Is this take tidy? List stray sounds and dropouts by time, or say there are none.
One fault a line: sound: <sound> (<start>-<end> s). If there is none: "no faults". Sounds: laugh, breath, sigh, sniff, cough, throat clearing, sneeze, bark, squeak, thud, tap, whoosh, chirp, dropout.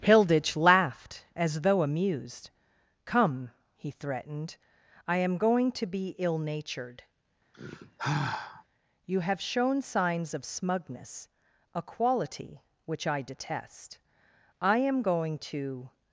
sound: sigh (7.5-8.6 s)